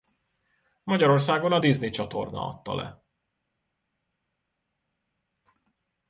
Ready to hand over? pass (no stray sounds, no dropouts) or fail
pass